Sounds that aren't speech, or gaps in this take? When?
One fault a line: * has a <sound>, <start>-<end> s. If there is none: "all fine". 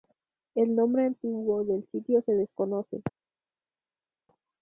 all fine